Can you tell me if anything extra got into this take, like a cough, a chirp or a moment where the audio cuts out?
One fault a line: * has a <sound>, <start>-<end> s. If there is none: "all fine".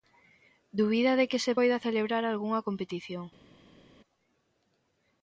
all fine